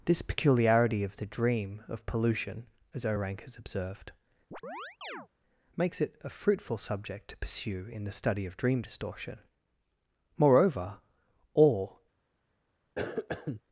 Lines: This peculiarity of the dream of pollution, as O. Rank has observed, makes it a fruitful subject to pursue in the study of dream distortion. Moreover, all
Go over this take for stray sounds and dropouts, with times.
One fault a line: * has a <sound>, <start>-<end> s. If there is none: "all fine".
* has a chirp, 4.5-5.3 s
* has a cough, 13.0-13.6 s